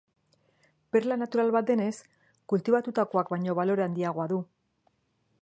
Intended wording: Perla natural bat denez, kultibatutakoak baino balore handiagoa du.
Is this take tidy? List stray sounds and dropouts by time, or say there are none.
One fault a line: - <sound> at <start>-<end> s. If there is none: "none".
none